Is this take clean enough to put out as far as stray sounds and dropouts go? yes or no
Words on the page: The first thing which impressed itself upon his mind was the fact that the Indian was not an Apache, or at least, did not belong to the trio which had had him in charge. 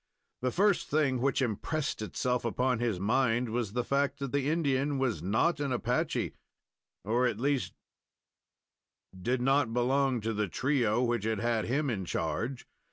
yes